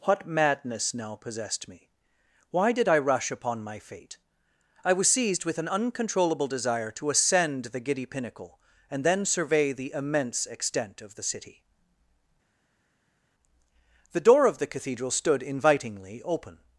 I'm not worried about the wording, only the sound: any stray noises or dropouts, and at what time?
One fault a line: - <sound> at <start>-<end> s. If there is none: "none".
none